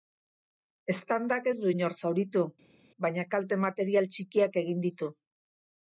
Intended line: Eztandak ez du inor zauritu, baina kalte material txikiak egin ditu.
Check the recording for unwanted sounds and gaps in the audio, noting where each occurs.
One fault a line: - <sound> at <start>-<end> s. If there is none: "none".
none